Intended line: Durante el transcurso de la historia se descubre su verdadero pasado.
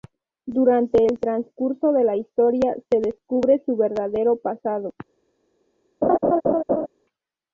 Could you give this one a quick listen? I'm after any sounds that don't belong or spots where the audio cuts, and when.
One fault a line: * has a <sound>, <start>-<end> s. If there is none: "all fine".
* has a laugh, 6.0-6.9 s